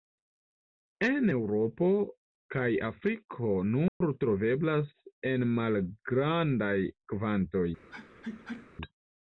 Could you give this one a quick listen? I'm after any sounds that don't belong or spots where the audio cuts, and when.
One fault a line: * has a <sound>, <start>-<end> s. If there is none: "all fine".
* has a dropout, 3.9-4.0 s
* has a sneeze, 7.9-8.7 s